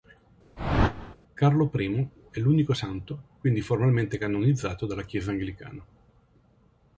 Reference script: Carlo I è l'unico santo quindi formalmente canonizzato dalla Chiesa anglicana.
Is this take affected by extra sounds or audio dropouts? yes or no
yes